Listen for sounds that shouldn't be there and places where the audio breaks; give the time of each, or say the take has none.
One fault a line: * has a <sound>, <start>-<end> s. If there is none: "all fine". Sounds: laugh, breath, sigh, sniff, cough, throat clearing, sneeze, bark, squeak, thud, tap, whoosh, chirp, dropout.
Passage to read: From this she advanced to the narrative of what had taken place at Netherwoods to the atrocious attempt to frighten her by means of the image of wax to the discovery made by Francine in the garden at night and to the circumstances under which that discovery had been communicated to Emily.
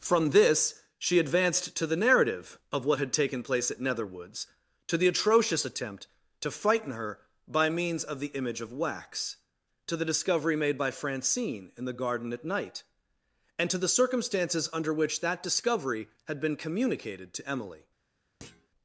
* has a thud, 18.4-18.7 s